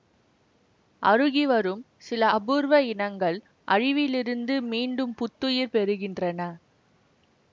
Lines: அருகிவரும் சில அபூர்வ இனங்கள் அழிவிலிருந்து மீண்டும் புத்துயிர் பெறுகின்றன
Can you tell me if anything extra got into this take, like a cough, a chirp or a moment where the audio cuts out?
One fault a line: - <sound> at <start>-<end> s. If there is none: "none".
none